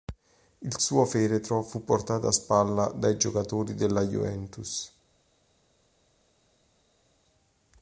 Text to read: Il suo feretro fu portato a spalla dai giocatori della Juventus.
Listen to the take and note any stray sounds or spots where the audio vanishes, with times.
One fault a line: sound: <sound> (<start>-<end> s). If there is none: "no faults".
no faults